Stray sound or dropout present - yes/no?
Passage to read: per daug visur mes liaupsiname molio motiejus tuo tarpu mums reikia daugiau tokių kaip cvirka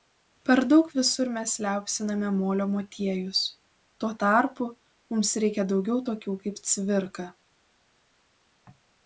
no